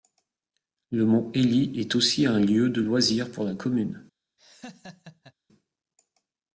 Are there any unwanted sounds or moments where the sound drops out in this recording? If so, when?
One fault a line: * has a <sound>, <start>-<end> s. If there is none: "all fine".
* has a laugh, 4.4-5.3 s